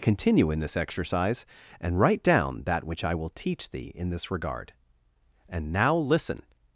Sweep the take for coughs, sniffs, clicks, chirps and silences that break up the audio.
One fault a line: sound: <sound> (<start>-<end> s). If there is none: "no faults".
no faults